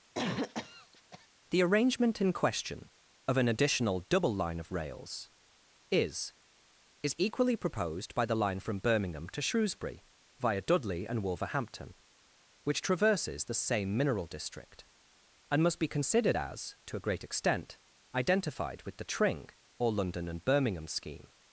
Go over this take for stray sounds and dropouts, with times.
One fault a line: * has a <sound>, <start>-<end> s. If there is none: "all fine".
* has a cough, 0.1-1.3 s